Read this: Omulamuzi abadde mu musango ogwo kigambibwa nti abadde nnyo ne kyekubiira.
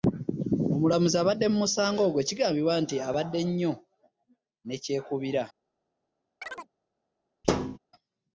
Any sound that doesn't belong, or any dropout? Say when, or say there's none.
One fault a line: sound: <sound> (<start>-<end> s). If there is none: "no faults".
sound: chirp (6.4-6.7 s)
sound: thud (7.4-7.8 s)